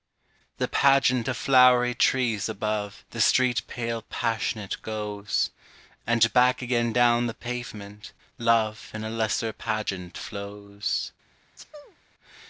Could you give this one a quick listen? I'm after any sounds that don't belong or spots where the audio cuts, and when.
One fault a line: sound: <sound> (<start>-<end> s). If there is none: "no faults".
sound: sneeze (11.6-12.0 s)